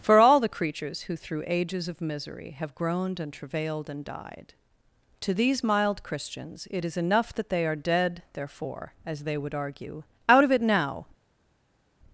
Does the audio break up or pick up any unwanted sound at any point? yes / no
no